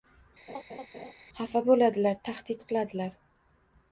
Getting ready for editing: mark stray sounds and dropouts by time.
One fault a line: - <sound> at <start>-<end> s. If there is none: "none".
- laugh at 0.5-1.1 s